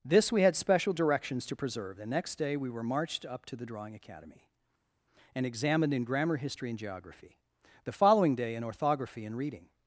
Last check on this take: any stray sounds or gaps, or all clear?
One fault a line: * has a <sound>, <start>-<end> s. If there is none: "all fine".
all fine